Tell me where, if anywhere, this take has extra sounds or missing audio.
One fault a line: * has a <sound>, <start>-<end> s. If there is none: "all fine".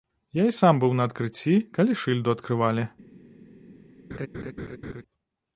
* has a laugh, 4.1-5.0 s